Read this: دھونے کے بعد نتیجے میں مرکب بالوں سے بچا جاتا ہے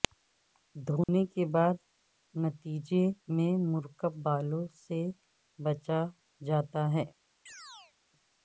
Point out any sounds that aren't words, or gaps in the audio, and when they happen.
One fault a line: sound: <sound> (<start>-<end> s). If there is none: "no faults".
sound: dropout (1.0-1.1 s)
sound: chirp (7.5-7.9 s)